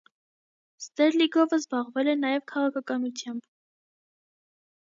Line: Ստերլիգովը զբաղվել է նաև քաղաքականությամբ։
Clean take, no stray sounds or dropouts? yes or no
yes